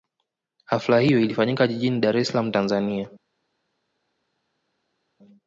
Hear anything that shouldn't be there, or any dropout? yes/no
no